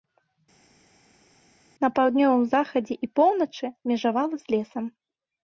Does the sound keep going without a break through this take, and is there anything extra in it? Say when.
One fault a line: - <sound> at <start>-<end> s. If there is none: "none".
none